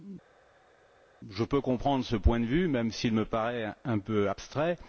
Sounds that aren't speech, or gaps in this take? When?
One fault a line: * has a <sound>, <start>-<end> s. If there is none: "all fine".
all fine